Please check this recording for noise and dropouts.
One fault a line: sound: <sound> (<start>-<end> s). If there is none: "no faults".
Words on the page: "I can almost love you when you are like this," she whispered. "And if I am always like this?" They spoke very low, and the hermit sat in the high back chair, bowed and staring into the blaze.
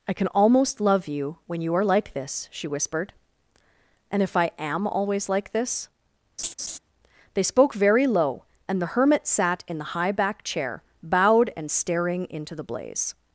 sound: laugh (6.4-6.8 s)